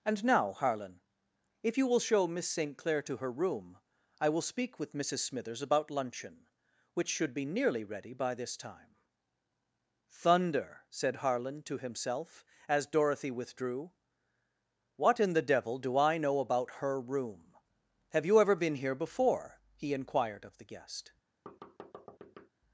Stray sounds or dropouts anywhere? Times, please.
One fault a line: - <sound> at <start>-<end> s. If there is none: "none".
- thud at 21.5-22.5 s